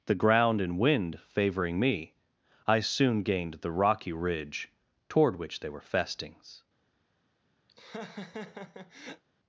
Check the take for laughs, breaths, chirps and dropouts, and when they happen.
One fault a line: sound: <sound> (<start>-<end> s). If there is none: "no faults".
sound: laugh (7.7-9.2 s)